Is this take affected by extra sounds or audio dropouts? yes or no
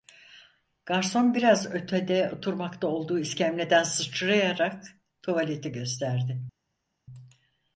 no